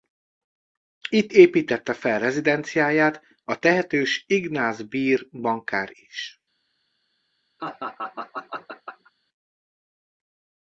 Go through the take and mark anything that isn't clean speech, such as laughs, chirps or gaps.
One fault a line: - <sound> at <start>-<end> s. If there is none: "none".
- laugh at 7.6-9.1 s